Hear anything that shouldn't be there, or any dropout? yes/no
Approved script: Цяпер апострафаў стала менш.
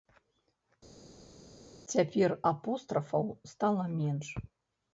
no